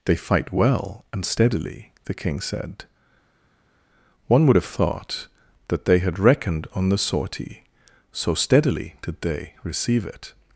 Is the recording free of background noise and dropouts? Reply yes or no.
yes